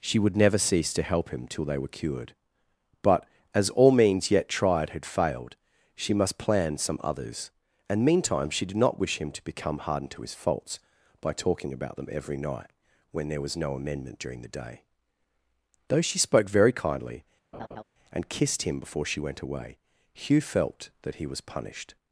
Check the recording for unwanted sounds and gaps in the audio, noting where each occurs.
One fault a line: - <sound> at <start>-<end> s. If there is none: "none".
- laugh at 17.5-17.8 s